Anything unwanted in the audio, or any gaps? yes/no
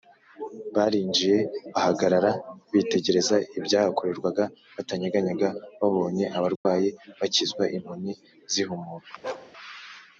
yes